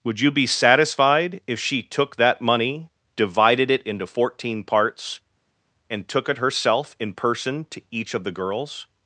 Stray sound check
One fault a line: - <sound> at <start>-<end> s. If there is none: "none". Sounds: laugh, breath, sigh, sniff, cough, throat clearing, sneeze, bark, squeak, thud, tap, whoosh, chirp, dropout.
none